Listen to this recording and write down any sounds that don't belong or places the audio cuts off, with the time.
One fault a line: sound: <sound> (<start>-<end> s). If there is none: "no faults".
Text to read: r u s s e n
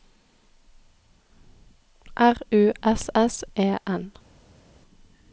no faults